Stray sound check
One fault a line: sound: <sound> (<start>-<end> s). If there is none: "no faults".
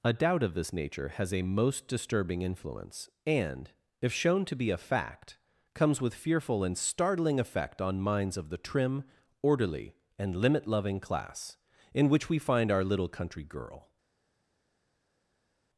no faults